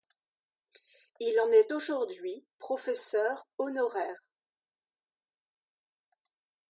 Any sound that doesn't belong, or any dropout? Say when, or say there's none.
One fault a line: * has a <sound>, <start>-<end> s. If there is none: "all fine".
all fine